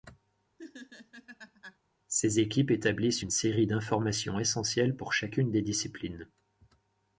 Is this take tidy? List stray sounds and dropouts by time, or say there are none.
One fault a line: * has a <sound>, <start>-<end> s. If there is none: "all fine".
* has a laugh, 0.6-1.8 s